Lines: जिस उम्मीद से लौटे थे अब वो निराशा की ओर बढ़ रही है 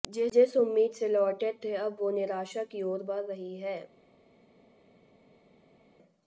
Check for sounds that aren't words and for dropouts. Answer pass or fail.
pass